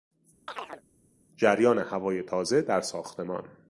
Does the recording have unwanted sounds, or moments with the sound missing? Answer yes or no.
yes